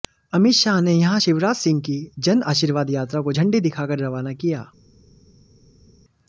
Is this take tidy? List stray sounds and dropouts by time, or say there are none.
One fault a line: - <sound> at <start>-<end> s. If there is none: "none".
none